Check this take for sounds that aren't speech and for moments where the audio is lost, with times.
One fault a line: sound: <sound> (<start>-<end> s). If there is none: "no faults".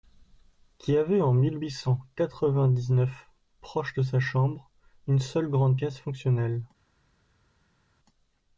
no faults